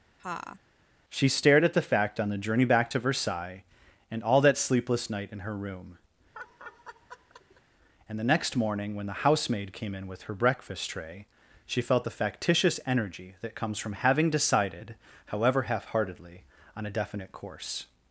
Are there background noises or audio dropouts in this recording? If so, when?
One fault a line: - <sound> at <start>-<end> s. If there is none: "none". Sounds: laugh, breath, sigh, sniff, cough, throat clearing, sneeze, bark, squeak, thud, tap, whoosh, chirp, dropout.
- laugh at 0.2-0.6 s
- laugh at 6.3-7.6 s